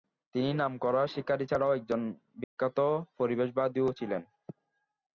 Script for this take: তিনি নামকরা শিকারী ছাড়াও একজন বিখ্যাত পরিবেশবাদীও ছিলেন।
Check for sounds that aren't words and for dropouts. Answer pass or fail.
fail